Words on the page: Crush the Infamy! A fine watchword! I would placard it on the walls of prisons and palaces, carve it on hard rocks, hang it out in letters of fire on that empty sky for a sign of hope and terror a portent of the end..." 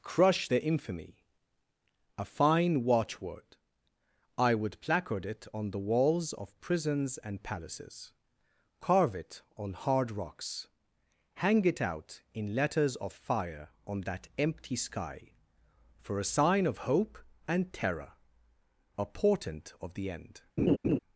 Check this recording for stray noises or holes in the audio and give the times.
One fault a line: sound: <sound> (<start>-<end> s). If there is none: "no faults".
sound: laugh (20.6-21.0 s)